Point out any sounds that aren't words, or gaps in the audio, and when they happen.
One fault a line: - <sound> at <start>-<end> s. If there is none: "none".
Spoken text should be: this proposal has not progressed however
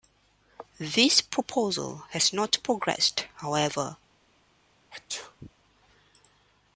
- sneeze at 4.9-5.5 s